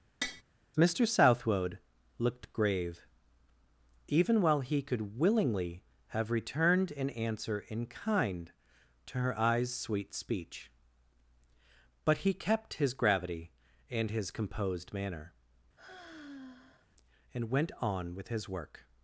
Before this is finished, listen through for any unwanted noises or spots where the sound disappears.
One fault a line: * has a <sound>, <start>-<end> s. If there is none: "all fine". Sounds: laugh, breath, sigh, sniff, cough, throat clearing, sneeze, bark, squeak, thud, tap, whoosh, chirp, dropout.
* has a tap, 0.2-0.4 s
* has a sigh, 15.8-16.9 s